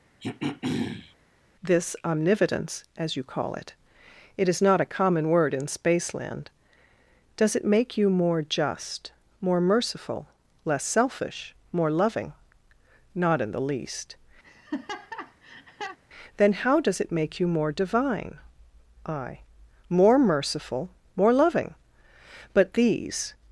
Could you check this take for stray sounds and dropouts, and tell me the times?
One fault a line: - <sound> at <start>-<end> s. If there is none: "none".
- throat clearing at 0.2-1.1 s
- laugh at 14.4-16.0 s